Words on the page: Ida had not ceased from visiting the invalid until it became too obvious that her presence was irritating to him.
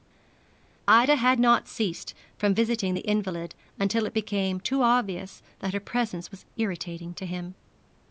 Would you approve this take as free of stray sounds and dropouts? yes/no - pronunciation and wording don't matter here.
yes